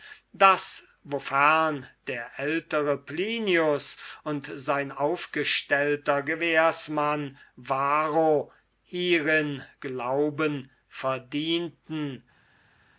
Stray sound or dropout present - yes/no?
no